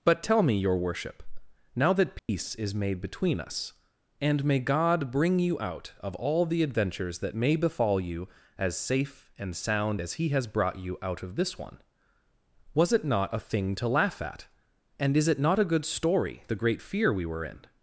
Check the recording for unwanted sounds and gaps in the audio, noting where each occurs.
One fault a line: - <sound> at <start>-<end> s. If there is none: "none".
- dropout at 2.2-2.3 s